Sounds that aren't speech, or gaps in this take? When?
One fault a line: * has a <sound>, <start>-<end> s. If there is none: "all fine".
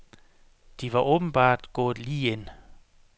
all fine